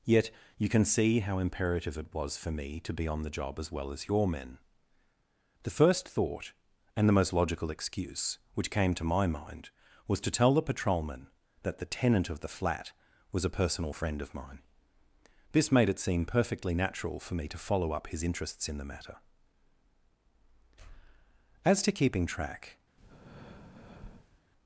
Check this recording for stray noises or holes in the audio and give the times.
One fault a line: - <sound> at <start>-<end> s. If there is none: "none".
- breath at 23.0-24.4 s